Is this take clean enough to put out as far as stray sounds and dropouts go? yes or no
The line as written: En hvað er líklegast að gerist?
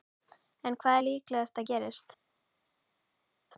yes